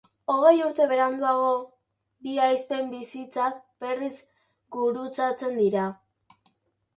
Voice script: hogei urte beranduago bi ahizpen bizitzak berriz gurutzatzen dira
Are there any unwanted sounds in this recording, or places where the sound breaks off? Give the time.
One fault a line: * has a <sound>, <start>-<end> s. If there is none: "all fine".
all fine